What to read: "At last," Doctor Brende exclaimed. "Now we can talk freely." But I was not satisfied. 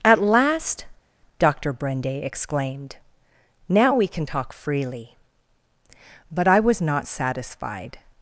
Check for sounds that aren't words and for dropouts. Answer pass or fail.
pass